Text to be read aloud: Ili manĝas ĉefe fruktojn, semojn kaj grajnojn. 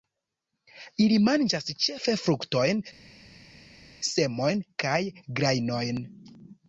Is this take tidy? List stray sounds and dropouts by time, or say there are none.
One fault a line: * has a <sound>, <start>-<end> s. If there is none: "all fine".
all fine